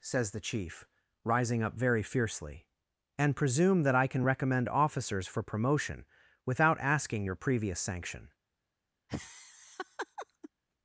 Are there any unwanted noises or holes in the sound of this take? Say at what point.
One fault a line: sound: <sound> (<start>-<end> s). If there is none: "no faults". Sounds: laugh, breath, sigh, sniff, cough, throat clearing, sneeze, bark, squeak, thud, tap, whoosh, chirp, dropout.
sound: laugh (9.1-10.5 s)